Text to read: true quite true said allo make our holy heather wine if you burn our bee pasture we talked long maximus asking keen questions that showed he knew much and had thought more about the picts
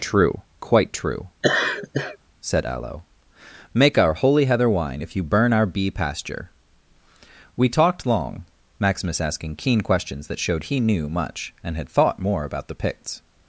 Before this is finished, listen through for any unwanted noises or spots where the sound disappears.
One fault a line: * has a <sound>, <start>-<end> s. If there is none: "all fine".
* has a laugh, 1.4-2.2 s